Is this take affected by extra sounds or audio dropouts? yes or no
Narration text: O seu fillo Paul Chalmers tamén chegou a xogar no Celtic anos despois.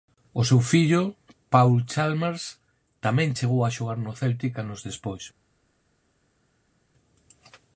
no